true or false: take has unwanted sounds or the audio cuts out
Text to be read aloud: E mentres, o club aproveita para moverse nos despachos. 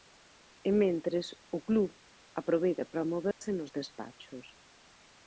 true